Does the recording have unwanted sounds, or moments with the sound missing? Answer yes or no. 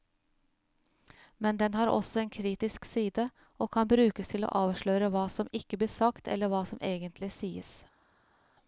no